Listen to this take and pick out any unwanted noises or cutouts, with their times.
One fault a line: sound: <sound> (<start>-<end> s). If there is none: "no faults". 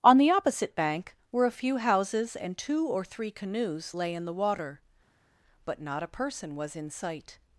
no faults